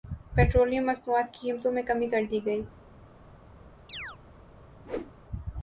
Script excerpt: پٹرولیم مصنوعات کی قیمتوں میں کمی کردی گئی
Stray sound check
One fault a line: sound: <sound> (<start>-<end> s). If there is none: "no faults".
sound: chirp (3.9-4.2 s)
sound: whoosh (4.8-5.1 s)